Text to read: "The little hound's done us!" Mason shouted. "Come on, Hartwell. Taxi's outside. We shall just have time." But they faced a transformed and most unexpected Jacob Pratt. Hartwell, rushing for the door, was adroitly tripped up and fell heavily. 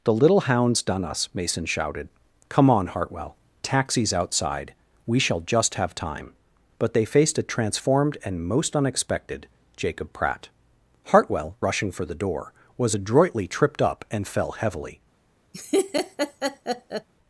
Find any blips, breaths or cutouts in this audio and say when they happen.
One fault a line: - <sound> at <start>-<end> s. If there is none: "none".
- laugh at 15.5-17.1 s